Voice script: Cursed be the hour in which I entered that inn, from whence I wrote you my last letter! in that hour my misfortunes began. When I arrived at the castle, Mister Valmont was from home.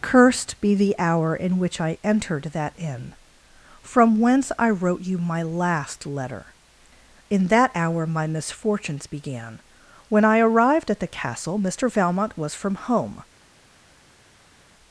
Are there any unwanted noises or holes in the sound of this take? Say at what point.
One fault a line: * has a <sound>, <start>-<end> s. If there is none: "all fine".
all fine